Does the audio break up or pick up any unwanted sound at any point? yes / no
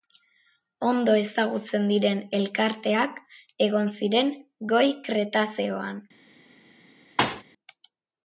yes